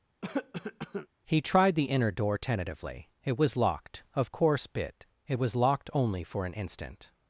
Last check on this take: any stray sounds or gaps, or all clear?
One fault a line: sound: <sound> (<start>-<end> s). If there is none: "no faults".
sound: cough (0.2-1.1 s)